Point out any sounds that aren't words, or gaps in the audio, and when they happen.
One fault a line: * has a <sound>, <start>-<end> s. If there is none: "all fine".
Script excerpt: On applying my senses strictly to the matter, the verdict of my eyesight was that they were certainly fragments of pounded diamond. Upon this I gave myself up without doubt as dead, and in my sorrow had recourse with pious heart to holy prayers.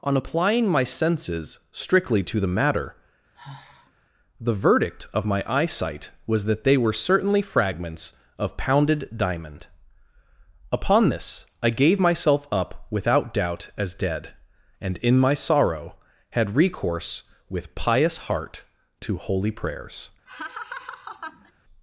* has a sigh, 3.3-3.9 s
* has a laugh, 20.3-21.5 s